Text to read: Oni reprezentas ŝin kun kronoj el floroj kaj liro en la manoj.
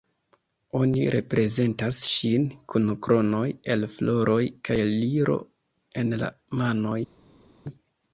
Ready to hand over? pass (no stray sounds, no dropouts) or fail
pass